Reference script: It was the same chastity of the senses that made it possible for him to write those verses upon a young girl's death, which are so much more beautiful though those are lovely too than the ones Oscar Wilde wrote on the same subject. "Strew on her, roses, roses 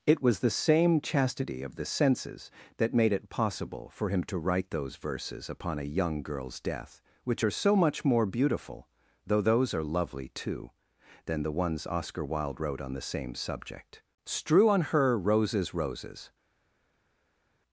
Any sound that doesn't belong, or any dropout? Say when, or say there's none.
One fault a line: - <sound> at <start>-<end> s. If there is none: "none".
none